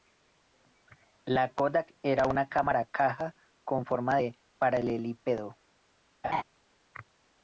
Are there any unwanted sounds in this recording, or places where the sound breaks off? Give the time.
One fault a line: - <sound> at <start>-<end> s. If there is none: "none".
- laugh at 6.2-6.4 s